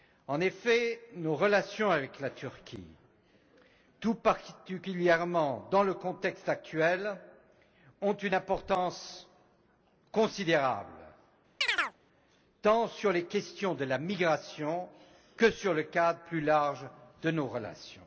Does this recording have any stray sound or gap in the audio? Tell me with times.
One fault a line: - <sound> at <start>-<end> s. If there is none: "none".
- chirp at 11.6-12.0 s